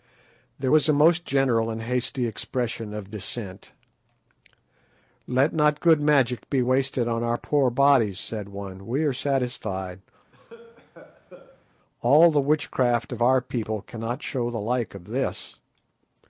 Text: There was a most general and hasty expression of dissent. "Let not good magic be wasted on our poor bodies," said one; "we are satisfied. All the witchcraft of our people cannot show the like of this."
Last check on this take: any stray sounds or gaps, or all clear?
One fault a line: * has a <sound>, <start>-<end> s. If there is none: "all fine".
* has a cough, 10.3-11.6 s